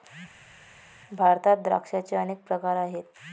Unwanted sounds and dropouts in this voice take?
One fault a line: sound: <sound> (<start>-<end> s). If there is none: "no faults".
no faults